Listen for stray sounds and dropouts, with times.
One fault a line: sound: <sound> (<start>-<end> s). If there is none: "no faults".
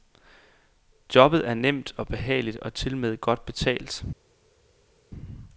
no faults